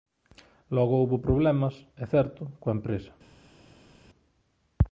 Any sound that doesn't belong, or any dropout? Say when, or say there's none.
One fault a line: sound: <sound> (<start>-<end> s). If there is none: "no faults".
no faults